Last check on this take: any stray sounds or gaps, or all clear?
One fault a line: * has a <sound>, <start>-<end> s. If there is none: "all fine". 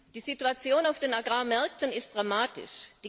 all fine